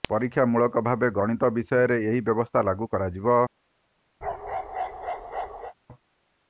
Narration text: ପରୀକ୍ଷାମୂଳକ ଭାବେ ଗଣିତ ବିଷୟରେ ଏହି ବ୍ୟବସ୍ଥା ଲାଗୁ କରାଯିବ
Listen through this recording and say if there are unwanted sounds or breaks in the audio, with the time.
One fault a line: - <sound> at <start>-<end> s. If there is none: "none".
- bark at 4.2-5.7 s